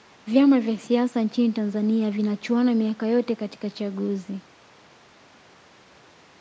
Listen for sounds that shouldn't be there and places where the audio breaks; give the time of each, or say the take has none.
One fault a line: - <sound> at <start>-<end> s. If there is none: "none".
none